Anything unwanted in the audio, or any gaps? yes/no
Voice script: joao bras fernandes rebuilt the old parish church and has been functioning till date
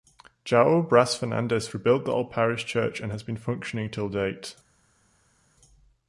no